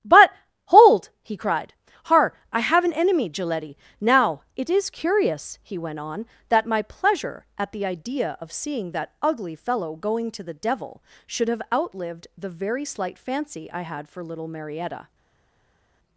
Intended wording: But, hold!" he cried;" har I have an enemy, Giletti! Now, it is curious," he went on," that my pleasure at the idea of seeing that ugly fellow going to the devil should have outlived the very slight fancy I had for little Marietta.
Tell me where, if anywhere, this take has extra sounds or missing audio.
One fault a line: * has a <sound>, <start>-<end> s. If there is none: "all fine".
all fine